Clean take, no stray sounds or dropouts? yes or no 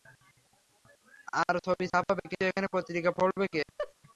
no